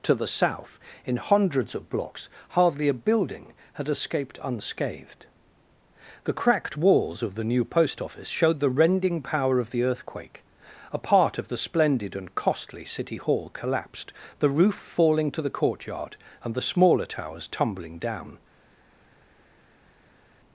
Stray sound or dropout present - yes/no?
no